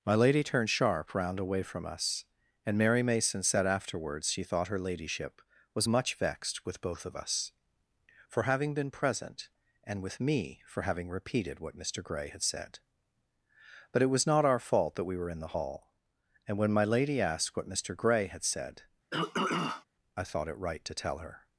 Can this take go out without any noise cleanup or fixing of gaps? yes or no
no